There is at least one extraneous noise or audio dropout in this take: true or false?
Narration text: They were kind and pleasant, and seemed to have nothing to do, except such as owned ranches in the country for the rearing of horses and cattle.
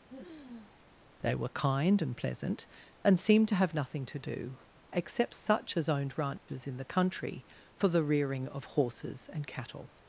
true